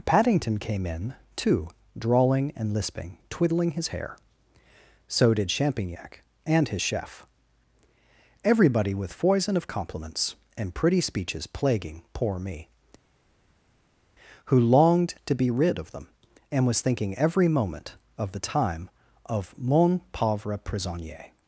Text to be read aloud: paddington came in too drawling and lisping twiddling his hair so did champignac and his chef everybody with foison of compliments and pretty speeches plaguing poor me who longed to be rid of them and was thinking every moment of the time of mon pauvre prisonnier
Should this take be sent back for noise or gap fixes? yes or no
no